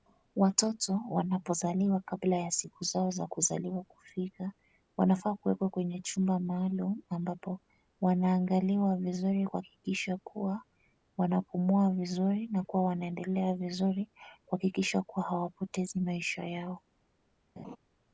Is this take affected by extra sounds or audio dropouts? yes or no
yes